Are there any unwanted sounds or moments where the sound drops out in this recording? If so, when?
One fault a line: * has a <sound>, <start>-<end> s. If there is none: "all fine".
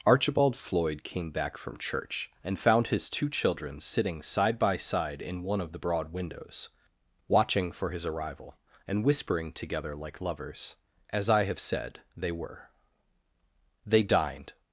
all fine